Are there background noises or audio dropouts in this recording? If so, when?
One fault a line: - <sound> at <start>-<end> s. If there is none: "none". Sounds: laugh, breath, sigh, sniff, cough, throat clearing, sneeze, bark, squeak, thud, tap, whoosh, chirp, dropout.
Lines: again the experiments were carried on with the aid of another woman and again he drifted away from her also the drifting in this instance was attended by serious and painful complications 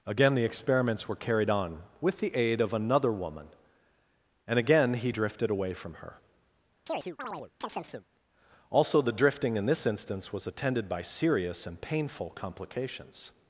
- chirp at 6.9-8.1 s